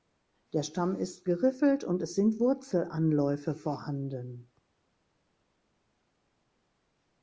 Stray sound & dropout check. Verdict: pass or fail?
pass